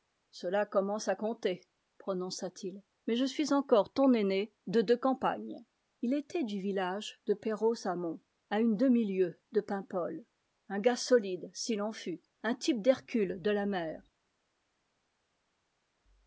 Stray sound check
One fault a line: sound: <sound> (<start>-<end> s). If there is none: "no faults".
no faults